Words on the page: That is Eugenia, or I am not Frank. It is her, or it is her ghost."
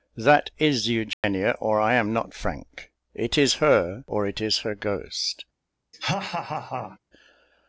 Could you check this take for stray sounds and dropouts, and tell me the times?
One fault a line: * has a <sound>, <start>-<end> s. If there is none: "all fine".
* has a dropout, 1.1-1.2 s
* has a laugh, 5.9-7.0 s